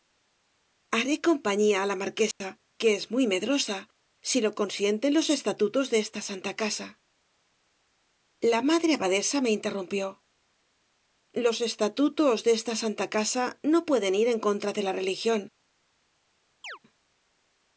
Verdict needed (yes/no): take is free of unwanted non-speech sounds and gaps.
no